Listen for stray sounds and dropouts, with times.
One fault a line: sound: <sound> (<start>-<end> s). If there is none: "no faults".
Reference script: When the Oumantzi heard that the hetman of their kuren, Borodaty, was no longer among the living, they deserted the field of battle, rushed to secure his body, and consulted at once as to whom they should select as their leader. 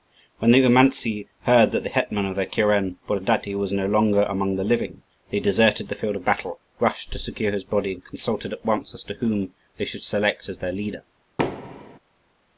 sound: thud (11.4-12.0 s)